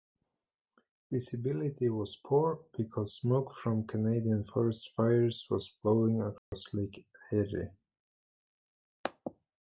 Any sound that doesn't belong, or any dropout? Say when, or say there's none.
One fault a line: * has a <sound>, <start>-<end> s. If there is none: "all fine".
* has a dropout, 6.4-6.5 s